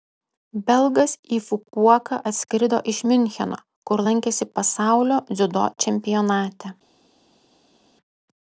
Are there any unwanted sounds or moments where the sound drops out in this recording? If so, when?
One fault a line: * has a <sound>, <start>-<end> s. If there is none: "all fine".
all fine